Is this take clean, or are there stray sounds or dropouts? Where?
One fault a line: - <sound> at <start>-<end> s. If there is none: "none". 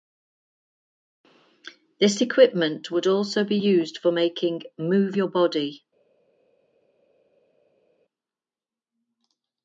none